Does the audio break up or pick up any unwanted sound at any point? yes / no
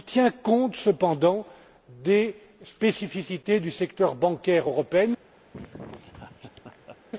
yes